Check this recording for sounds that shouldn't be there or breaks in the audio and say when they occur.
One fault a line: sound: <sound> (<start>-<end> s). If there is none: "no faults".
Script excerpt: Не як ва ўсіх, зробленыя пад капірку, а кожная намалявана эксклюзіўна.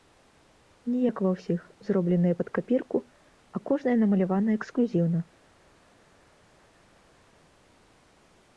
no faults